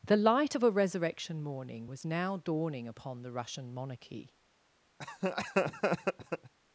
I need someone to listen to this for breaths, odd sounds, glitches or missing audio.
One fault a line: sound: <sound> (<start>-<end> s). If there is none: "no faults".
sound: laugh (5.0-6.5 s)